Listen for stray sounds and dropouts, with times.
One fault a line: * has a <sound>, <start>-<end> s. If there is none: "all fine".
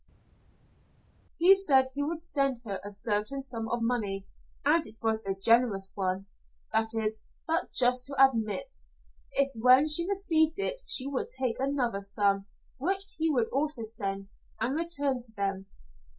all fine